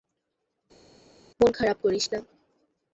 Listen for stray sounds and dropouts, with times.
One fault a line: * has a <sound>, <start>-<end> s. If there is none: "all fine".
all fine